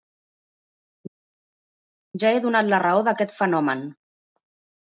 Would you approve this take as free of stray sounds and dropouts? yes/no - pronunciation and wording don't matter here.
yes